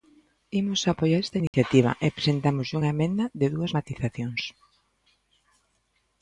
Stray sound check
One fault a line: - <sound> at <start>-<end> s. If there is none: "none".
- dropout at 1.5-1.5 s